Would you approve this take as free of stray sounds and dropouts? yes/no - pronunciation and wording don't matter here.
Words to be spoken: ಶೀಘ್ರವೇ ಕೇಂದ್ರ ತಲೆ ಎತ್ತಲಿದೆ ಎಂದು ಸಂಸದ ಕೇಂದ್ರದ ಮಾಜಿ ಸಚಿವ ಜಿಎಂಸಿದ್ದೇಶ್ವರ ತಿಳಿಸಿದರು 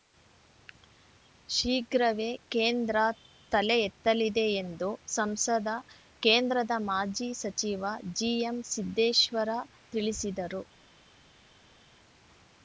yes